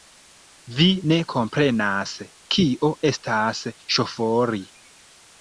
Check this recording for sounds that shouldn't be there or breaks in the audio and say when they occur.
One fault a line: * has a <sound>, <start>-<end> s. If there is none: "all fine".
all fine